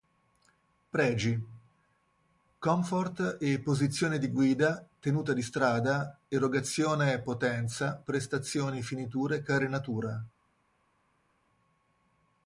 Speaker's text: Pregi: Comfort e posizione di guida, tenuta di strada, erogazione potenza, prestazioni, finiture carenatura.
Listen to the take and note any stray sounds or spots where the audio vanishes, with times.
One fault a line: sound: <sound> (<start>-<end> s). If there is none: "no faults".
no faults